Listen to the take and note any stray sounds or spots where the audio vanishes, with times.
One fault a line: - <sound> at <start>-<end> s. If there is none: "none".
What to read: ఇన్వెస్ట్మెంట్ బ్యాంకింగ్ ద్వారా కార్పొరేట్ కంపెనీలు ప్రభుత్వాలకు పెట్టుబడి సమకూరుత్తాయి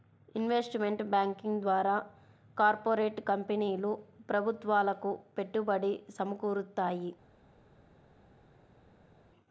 none